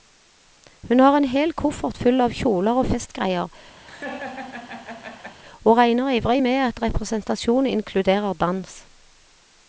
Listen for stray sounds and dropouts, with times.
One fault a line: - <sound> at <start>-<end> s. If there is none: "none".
- laugh at 3.9-5.4 s